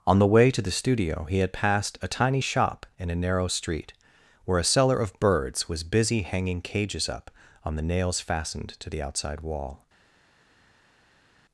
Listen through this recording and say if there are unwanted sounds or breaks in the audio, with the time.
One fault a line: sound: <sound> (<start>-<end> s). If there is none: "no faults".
no faults